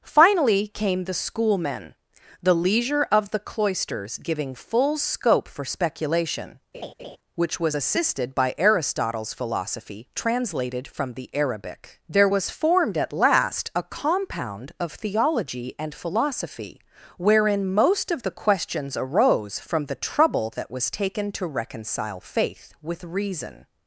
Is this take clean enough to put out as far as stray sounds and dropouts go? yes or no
no